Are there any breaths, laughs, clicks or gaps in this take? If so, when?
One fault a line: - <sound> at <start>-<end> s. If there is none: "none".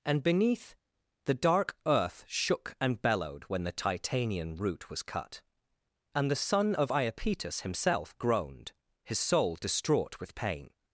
none